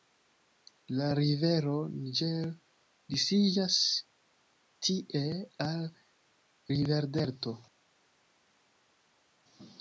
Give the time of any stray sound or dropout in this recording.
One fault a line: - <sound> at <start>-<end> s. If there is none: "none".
none